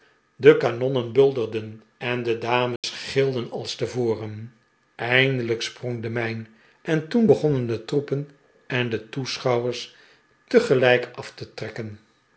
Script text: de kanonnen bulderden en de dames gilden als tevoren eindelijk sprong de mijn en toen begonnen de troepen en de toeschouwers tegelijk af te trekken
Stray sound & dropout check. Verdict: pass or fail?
fail